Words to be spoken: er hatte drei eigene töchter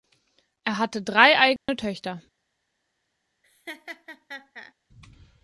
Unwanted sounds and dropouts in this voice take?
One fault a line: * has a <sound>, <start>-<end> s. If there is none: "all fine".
* has a dropout, 1.6-1.7 s
* has a laugh, 3.4-4.7 s